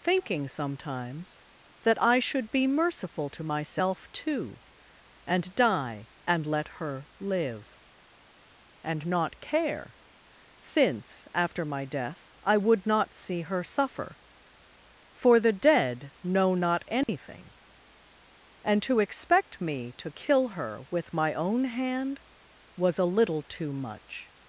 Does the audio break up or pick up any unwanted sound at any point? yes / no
yes